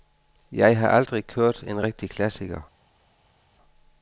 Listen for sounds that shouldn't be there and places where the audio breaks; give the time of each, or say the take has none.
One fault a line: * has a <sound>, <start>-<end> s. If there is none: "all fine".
all fine